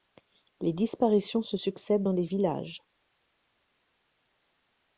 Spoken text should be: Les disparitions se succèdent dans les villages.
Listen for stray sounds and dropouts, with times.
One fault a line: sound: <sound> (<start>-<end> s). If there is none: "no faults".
no faults